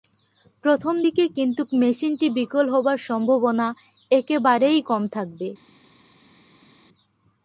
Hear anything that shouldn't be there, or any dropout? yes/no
no